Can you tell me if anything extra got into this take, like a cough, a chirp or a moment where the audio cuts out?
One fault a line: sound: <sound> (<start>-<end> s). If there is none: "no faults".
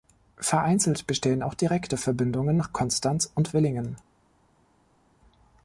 no faults